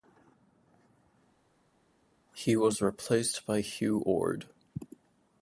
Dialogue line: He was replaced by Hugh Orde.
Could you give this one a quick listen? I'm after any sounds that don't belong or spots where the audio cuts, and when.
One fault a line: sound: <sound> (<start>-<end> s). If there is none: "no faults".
no faults